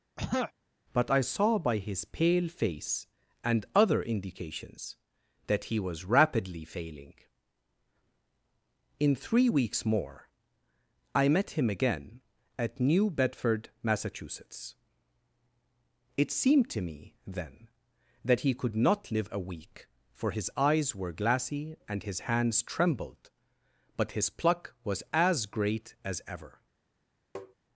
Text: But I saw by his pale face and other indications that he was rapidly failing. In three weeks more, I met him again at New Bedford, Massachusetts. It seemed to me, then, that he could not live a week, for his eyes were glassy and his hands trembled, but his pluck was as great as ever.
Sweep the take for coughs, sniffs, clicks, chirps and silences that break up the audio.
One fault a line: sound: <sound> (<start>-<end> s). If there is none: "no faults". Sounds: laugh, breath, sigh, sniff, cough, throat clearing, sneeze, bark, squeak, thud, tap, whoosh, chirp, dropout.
sound: throat clearing (0.2-0.5 s)
sound: tap (27.3-27.5 s)